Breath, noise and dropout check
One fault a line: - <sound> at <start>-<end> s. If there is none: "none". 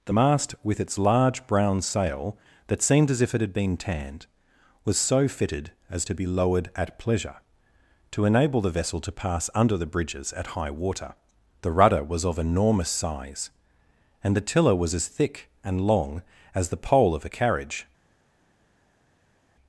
none